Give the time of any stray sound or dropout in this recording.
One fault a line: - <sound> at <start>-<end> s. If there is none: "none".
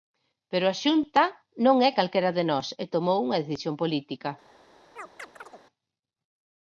- chirp at 5.0-5.6 s